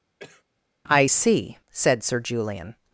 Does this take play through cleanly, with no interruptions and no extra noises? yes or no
no